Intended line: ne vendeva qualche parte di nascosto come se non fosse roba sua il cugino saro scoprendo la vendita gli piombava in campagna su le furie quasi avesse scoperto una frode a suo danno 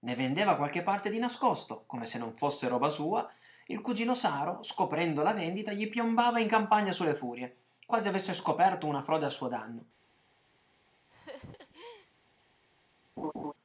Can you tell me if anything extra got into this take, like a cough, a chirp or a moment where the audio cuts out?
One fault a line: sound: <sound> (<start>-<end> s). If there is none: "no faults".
sound: laugh (11.1-12.1 s)
sound: laugh (13.2-13.5 s)